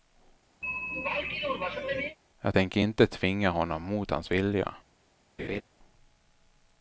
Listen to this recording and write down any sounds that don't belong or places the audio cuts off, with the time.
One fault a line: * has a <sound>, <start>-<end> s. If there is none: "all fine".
* has a throat clearing, 0.6-2.2 s
* has a laugh, 5.4-5.6 s